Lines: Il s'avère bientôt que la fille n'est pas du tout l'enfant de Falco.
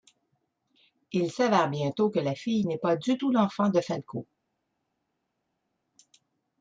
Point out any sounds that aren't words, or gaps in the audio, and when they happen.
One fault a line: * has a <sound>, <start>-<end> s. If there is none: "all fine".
all fine